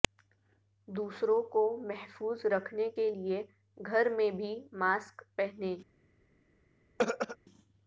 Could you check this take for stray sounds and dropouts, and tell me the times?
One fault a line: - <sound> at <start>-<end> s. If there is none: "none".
- throat clearing at 7.0-7.4 s